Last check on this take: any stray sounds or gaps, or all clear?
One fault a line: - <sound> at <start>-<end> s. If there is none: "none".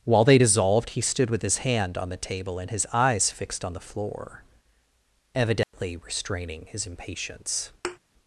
- dropout at 5.6-5.7 s
- thud at 7.8-8.0 s